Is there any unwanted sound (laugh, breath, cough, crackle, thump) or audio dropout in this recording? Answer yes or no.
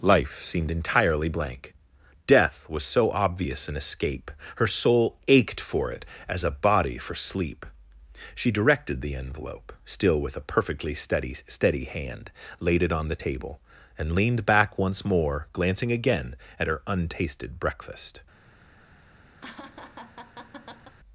yes